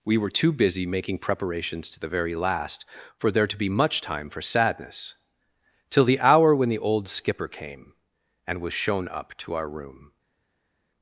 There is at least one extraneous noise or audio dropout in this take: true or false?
false